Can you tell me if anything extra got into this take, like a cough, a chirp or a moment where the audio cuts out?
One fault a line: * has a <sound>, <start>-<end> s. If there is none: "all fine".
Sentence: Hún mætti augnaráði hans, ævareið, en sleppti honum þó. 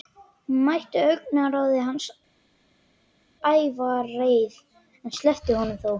all fine